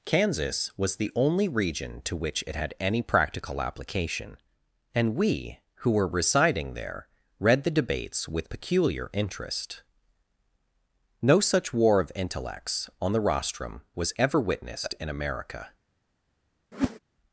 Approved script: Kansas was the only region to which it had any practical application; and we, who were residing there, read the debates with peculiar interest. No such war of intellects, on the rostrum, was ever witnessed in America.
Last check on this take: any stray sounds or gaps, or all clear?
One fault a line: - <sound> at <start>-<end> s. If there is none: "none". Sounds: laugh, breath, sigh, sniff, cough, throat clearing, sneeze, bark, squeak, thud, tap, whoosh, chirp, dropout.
- whoosh at 16.7-17.0 s